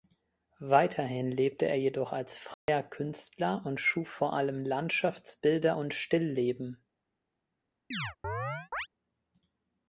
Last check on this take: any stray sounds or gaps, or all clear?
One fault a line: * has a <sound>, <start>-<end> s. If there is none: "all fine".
* has a dropout, 2.5-2.7 s
* has a chirp, 7.9-8.9 s